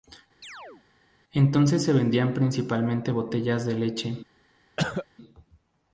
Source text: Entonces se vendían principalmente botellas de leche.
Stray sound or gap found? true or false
true